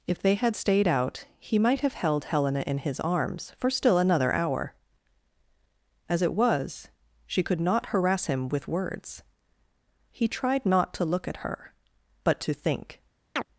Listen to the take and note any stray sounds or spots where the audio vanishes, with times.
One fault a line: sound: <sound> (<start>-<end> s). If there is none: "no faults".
sound: chirp (13.4-13.5 s)